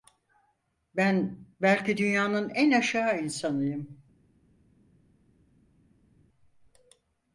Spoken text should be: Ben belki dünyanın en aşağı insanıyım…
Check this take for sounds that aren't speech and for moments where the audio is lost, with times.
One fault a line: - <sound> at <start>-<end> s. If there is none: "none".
none